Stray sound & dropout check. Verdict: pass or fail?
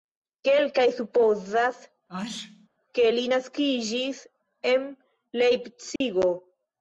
fail